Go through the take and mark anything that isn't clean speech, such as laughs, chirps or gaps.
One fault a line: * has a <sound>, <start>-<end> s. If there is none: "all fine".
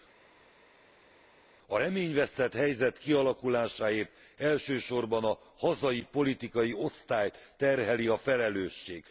all fine